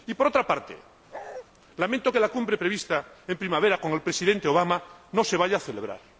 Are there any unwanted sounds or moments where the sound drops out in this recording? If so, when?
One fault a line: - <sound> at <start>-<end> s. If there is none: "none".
- bark at 1.1-1.5 s